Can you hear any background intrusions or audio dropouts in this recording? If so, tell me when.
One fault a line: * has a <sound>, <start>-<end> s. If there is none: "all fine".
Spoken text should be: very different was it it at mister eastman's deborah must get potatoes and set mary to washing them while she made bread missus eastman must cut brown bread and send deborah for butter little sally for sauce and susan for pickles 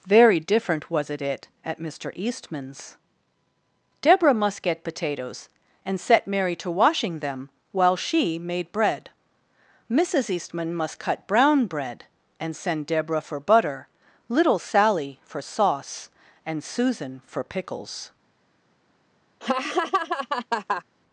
* has a laugh, 19.4-20.8 s